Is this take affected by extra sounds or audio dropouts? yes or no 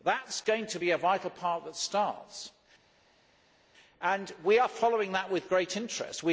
no